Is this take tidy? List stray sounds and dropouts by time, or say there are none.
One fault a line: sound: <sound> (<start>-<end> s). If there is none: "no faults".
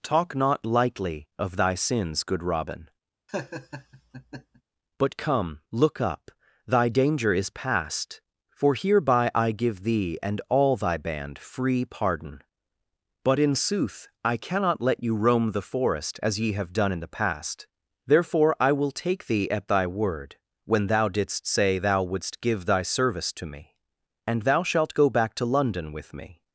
sound: laugh (3.3-4.6 s)